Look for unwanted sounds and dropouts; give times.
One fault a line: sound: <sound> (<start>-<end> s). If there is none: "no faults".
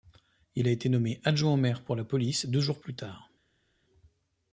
no faults